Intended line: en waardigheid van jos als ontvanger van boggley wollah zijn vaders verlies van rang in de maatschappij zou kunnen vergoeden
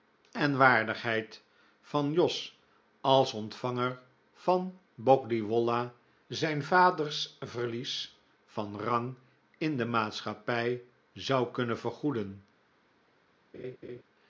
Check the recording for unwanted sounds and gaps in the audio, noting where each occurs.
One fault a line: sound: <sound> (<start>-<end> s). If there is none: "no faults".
sound: laugh (13.5-14.0 s)